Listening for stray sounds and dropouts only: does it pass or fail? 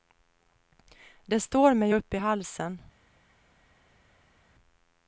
pass